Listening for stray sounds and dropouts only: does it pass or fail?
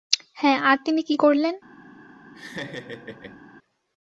fail